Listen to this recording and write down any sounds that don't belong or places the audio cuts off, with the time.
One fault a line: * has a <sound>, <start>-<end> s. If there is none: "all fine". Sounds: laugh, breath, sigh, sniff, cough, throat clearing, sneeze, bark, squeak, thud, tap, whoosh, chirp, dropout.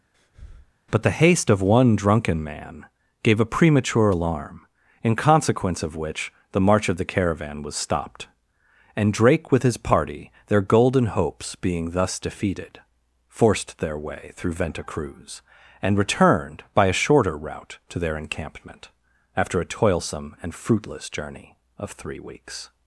* has a breath, 0.1-0.7 s